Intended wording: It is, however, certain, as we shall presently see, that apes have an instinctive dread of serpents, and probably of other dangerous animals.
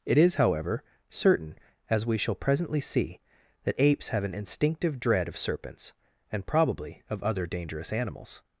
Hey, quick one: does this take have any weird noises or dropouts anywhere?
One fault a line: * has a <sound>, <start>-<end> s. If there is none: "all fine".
all fine